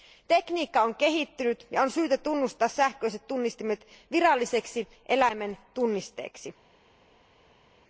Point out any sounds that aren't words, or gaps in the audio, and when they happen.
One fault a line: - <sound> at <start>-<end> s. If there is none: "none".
none